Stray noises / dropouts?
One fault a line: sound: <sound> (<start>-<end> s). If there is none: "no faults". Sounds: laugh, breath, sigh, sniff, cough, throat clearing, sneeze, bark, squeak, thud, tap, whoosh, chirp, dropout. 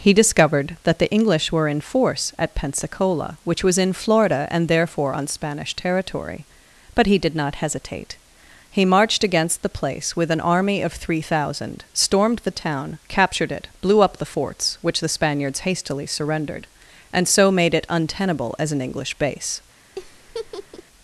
sound: laugh (20.0-20.8 s)